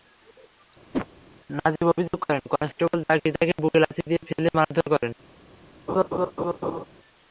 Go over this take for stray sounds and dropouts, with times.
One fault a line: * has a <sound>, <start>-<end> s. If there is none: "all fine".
* has a whoosh, 0.9-1.1 s
* has a laugh, 5.9-6.9 s